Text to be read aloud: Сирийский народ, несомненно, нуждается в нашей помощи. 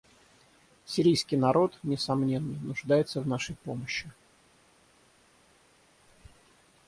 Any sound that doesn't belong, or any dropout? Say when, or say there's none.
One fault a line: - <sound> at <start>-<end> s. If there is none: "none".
none